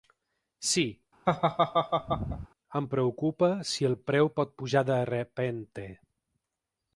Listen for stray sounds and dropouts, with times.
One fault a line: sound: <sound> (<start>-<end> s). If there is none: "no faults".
sound: laugh (1.3-2.5 s)